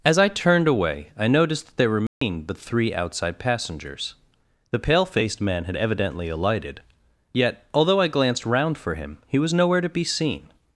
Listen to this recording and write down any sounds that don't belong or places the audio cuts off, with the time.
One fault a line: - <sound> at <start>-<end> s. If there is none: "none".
- dropout at 2.1-2.2 s